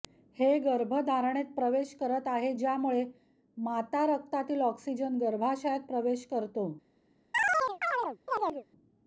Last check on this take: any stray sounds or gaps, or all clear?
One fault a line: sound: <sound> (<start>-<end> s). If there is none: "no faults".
sound: chirp (7.3-8.7 s)